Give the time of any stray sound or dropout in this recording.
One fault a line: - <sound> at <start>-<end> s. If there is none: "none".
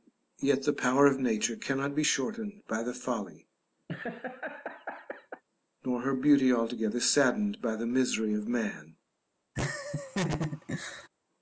- laugh at 3.9-5.4 s
- laugh at 9.6-11.1 s